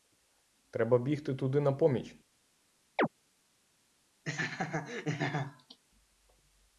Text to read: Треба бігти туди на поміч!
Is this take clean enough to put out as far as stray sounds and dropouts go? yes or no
no